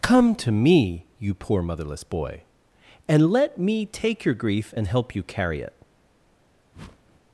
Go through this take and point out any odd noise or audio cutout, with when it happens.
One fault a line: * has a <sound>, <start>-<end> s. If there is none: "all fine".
* has a whoosh, 6.7-7.2 s